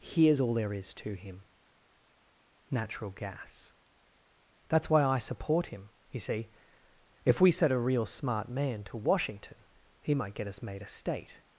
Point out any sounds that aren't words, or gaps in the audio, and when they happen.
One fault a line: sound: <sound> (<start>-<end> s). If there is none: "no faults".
no faults